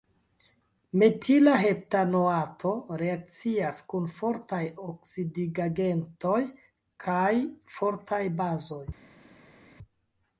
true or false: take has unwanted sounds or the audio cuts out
false